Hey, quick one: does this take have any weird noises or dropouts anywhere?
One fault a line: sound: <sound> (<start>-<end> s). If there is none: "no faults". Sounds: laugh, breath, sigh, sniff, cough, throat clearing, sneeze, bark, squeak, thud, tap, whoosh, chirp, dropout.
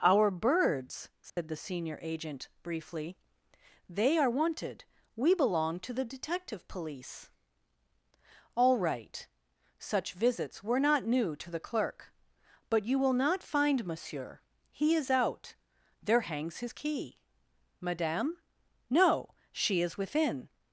sound: dropout (1.3-1.4 s)